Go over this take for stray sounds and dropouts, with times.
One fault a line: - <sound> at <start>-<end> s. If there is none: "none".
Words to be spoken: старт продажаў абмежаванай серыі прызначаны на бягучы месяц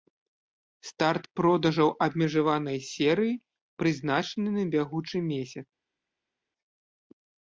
none